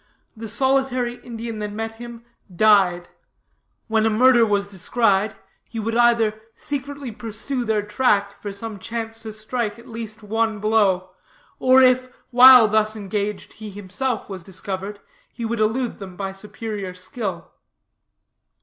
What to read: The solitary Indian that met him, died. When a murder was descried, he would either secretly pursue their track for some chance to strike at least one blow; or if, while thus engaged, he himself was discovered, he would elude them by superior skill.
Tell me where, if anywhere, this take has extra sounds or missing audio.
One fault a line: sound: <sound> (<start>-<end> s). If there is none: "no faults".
no faults